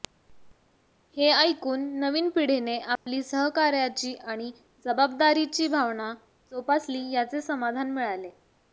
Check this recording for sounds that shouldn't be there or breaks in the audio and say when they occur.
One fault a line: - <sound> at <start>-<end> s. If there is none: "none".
- dropout at 3.0-3.1 s